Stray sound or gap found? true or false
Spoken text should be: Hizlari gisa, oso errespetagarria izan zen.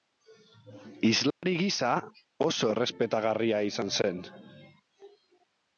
true